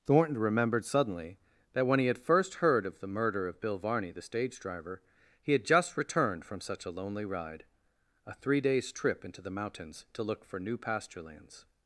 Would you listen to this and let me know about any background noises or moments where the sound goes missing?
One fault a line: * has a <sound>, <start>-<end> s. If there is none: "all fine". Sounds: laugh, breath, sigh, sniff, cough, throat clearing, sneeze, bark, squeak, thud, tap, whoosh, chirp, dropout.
all fine